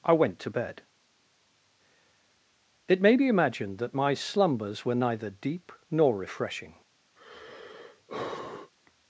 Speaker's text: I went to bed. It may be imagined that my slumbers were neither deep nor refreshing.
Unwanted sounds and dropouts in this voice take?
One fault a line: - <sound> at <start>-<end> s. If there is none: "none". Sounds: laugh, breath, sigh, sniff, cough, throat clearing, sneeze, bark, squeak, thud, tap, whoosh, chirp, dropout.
- sigh at 7.2-8.7 s